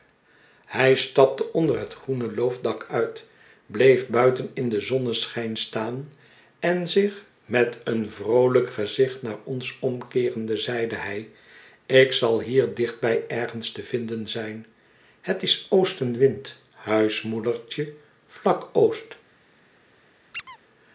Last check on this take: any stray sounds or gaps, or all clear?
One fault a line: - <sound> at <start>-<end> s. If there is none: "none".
- squeak at 20.3-20.6 s